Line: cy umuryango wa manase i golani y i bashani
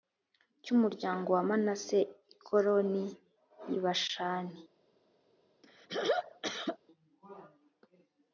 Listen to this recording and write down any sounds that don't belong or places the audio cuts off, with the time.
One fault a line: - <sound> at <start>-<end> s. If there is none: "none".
- throat clearing at 5.6-6.8 s